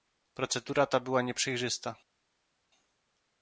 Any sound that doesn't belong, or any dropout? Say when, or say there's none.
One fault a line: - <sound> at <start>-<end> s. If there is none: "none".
none